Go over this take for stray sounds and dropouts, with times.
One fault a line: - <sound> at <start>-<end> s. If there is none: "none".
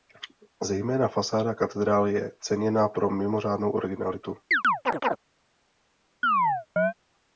- chirp at 4.5-5.2 s
- chirp at 6.2-6.9 s